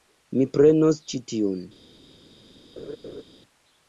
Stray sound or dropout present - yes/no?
yes